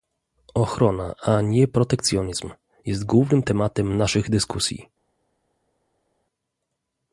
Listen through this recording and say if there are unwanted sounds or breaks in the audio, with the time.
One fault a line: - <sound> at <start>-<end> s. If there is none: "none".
none